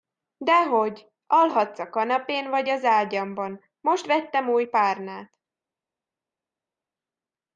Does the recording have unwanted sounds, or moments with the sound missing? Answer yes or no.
no